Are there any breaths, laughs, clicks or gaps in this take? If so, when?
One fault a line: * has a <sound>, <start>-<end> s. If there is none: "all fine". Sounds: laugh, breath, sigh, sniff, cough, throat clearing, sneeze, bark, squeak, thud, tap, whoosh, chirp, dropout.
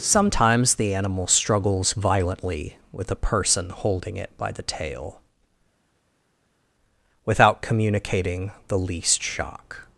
all fine